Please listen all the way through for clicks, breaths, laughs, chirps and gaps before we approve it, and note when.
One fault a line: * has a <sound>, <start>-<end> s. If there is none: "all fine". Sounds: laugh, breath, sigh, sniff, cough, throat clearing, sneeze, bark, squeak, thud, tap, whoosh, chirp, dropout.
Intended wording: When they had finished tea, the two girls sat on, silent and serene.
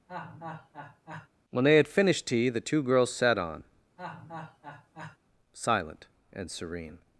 * has a laugh, 0.1-1.3 s
* has a laugh, 4.0-5.2 s